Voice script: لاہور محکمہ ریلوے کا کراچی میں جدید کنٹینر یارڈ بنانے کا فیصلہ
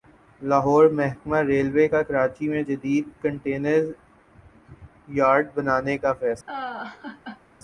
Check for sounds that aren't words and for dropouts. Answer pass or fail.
fail